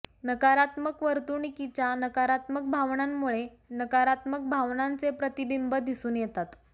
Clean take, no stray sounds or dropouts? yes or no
yes